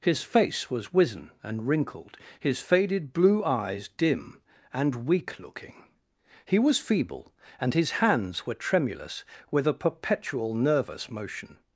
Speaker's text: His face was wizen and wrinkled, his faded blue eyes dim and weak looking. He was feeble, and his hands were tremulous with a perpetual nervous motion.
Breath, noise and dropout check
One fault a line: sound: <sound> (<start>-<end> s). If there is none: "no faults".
no faults